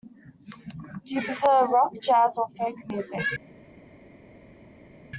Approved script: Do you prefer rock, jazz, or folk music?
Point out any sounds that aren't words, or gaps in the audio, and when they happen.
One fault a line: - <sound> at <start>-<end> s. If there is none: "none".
none